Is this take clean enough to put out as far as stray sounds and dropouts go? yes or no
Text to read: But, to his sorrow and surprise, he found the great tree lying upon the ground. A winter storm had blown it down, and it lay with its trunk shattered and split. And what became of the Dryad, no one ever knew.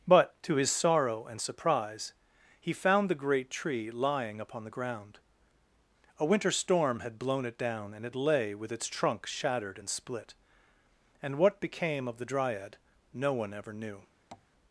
no